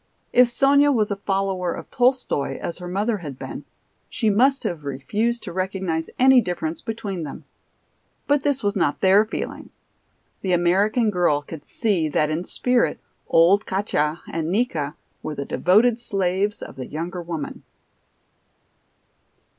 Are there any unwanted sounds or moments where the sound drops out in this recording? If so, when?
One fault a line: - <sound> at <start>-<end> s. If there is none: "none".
none